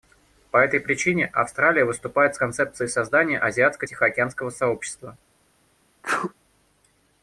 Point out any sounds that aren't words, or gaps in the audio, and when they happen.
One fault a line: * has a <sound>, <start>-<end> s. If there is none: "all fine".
* has a sneeze, 6.0-6.3 s